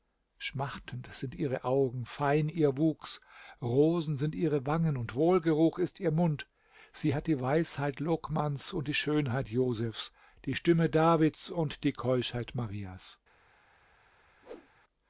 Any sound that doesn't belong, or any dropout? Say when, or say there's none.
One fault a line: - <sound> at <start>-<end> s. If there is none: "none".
- whoosh at 14.4-14.7 s